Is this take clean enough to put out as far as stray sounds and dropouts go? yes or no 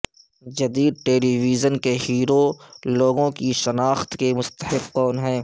yes